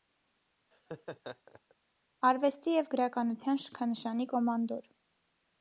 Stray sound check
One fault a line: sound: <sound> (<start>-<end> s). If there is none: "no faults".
sound: laugh (0.7-1.7 s)